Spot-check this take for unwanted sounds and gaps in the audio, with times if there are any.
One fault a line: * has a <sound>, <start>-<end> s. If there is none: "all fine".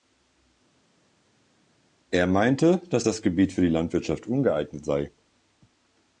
all fine